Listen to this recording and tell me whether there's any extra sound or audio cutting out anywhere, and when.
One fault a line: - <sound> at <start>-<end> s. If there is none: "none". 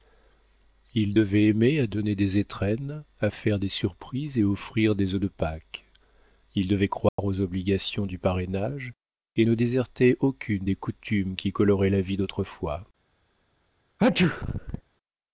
- dropout at 7.1-7.2 s
- sneeze at 14.0-14.8 s